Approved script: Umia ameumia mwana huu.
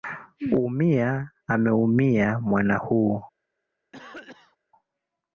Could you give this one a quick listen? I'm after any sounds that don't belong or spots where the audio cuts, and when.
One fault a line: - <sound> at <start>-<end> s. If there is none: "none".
- cough at 3.9-4.6 s